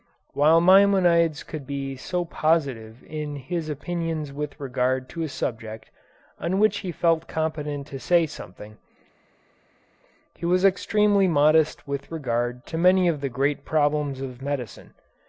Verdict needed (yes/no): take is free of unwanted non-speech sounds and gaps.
yes